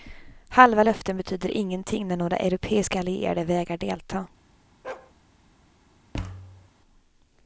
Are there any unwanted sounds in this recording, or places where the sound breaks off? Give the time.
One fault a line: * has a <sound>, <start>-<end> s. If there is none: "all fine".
* has a bark, 4.8-5.1 s
* has a thud, 6.1-6.7 s